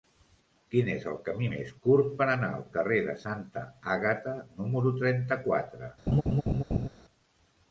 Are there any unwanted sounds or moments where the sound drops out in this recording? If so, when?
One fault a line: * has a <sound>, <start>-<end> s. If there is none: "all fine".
* has a laugh, 6.1-6.9 s